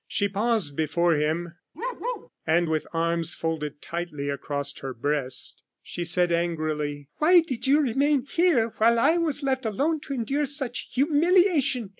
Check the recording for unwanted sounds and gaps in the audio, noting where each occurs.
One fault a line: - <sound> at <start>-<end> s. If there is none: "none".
- bark at 1.7-2.3 s